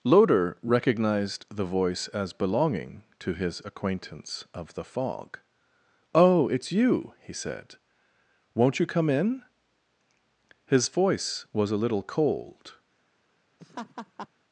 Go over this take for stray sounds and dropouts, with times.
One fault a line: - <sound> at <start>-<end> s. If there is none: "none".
- laugh at 13.6-14.3 s